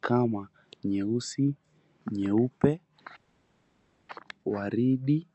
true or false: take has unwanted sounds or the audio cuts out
false